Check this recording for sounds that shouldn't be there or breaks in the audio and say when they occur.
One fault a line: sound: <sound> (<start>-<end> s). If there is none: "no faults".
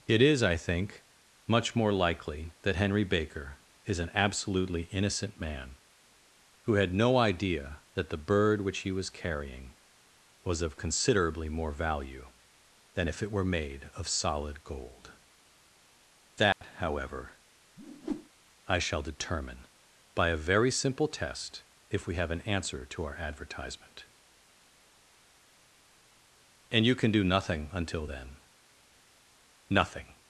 sound: dropout (16.5-16.6 s)
sound: whoosh (17.8-18.3 s)